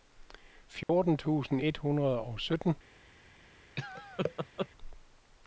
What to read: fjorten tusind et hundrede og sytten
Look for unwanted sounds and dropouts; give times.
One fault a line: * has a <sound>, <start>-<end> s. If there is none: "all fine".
* has a dropout, 0.8-0.9 s
* has a laugh, 3.8-4.7 s